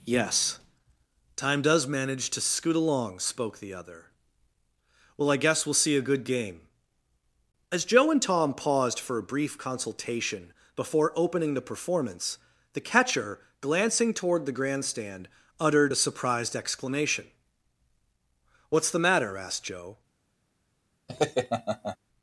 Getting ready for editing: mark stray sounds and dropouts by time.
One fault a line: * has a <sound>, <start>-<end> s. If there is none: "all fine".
* has a laugh, 21.1-22.0 s